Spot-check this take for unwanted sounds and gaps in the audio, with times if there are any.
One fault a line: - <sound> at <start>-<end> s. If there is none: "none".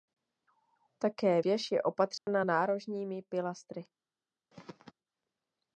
- dropout at 2.2-2.3 s
- throat clearing at 4.5-4.9 s